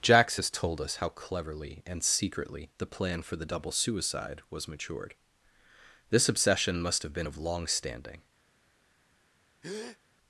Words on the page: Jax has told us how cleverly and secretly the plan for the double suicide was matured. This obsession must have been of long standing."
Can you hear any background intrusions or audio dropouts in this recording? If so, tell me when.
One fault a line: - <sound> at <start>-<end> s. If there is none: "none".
- breath at 9.6-10.0 s